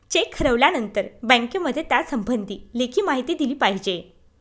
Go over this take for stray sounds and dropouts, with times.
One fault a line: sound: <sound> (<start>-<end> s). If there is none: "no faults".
no faults